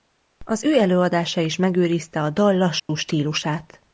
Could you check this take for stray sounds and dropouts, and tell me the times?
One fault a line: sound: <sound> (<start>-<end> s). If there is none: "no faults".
sound: dropout (2.8-2.9 s)